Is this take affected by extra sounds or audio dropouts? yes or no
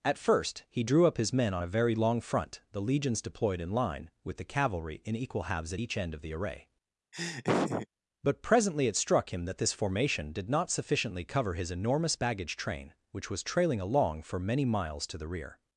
yes